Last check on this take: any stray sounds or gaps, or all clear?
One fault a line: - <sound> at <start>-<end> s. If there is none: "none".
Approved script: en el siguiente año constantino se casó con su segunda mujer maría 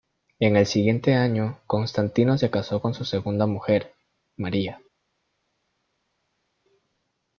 none